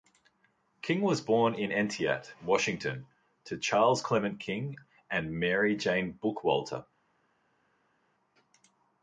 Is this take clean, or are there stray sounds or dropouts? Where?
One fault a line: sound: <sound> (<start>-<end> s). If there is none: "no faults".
no faults